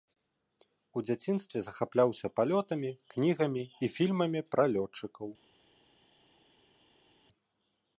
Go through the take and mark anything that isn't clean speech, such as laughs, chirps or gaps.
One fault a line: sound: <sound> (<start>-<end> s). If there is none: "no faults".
no faults